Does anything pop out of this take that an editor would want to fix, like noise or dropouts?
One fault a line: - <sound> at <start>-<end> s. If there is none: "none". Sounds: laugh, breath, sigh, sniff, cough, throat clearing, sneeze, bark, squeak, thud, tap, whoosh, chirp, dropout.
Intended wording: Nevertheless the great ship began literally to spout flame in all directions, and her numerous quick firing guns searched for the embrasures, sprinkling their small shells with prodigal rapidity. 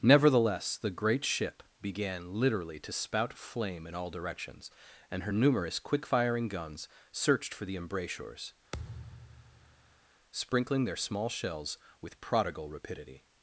- thud at 8.7-10.0 s